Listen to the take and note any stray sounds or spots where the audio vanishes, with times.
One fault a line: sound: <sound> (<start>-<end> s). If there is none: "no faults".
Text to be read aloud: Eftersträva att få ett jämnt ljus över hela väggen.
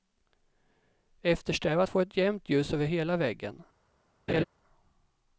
sound: laugh (4.3-4.4 s)